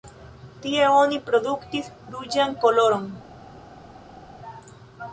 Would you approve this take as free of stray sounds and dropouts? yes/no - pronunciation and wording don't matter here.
yes